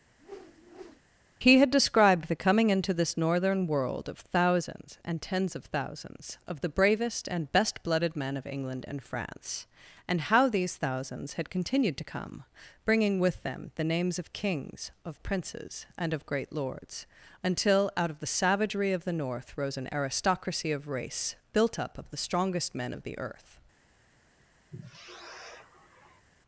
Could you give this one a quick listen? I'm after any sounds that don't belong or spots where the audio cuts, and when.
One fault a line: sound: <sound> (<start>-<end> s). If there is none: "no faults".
sound: whoosh (0.2-1.0 s)
sound: sigh (24.7-26.3 s)